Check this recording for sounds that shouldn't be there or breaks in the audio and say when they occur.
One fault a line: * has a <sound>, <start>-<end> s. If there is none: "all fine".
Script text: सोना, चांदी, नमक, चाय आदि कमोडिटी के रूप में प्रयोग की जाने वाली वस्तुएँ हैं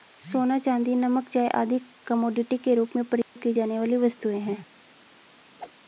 * has a dropout, 3.2-3.4 s
* has a whoosh, 5.6-5.7 s